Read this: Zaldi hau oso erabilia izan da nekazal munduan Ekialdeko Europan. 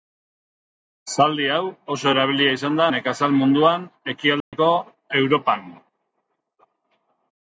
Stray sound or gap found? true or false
true